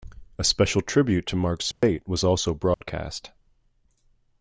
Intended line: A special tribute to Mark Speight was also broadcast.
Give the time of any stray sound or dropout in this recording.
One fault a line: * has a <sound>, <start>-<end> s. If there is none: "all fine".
* has a dropout, 1.7-1.8 s
* has a dropout, 2.7-2.8 s